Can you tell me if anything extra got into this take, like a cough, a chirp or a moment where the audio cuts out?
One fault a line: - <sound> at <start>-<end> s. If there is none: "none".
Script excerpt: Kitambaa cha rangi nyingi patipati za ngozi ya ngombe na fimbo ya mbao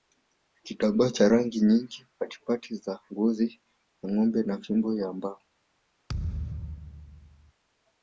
- thud at 6.1-7.5 s